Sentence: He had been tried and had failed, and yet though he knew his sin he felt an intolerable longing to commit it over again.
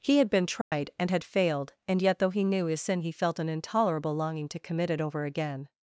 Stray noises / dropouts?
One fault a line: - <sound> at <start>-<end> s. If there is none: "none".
- dropout at 0.6-0.7 s